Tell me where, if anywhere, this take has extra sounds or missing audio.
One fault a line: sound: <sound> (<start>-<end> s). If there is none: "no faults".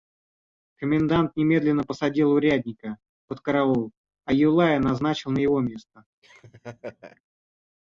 sound: laugh (6.2-7.2 s)